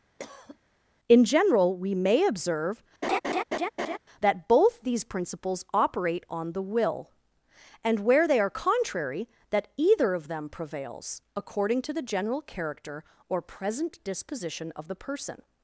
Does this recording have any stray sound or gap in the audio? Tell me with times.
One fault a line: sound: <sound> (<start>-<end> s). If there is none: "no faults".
sound: cough (0.2-0.6 s)
sound: laugh (3.0-4.0 s)